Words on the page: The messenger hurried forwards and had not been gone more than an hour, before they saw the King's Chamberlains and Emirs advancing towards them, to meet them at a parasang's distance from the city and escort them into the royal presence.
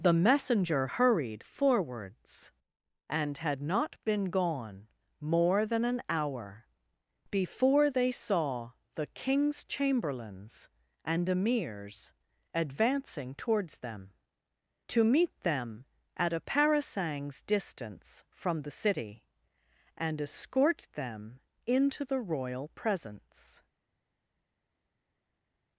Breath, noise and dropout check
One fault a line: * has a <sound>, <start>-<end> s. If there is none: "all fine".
all fine